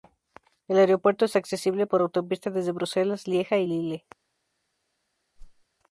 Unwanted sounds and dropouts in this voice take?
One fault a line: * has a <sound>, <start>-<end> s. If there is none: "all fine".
* has a whoosh, 5.4-5.6 s